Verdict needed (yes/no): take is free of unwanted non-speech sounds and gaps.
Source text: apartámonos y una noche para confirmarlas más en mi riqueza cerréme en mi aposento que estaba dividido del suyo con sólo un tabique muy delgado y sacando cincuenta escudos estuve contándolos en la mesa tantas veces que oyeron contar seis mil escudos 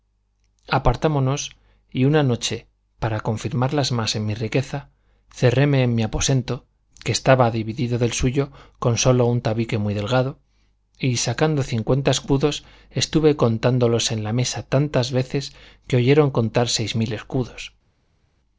yes